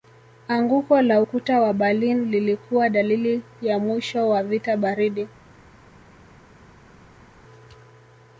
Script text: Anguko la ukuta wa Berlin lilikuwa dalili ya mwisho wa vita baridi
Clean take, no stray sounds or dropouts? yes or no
yes